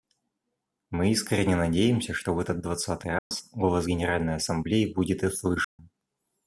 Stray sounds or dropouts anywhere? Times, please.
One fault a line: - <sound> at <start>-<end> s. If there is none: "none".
- dropout at 3.2-3.3 s
- dropout at 5.6-5.8 s